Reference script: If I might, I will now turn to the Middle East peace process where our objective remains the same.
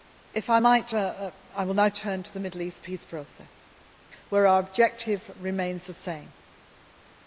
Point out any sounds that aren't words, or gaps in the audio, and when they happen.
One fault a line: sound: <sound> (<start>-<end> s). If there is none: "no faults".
no faults